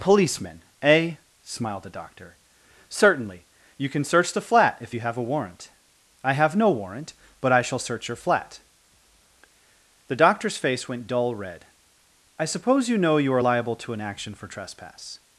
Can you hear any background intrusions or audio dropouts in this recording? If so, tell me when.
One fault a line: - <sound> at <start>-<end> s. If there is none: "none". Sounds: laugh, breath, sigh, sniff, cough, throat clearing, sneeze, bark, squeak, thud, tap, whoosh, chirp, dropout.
none